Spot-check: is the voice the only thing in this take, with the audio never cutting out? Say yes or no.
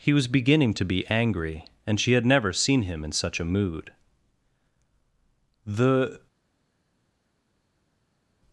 yes